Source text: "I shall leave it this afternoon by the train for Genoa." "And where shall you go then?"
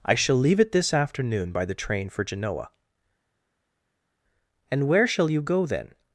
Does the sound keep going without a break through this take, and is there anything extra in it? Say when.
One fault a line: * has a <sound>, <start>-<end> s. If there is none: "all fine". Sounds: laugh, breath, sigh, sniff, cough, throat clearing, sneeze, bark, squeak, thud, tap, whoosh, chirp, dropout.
all fine